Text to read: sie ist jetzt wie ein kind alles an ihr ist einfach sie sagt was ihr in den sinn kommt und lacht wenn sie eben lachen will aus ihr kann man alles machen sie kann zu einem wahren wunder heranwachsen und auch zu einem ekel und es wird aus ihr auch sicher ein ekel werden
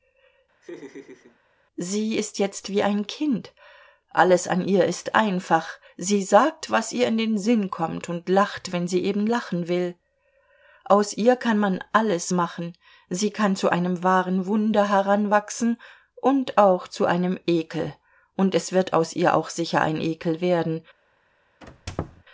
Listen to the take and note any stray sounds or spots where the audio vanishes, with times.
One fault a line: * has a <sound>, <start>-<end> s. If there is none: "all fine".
* has a laugh, 0.6-1.4 s
* has a squeak, 21.6-22.2 s